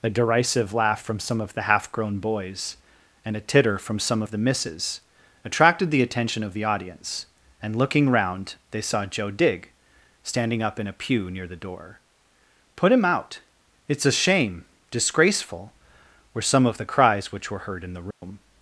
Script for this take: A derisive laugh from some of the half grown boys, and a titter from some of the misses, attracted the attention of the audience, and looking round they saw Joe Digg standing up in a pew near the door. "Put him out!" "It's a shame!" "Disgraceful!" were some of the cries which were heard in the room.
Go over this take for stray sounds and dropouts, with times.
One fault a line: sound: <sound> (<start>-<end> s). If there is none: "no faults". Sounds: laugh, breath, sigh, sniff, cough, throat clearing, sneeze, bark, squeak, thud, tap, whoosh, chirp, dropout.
sound: dropout (18.1-18.2 s)